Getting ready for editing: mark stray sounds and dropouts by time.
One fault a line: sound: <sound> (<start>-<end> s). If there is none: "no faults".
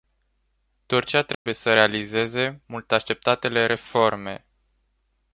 sound: dropout (1.3-1.5 s)